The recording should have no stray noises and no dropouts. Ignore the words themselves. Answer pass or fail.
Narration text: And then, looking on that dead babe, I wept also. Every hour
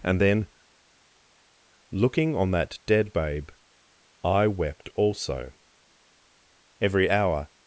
pass